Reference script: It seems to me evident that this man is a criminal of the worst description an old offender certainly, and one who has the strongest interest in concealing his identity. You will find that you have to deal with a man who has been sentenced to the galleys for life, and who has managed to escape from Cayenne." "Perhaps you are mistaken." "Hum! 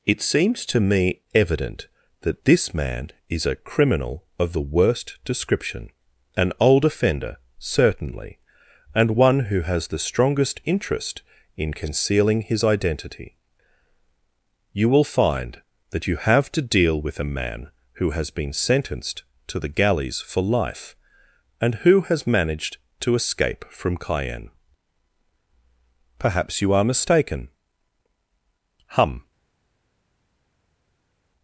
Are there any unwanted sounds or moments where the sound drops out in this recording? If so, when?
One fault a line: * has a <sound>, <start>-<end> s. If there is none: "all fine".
all fine